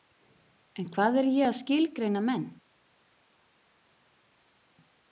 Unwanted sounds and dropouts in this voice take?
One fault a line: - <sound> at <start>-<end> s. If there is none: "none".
none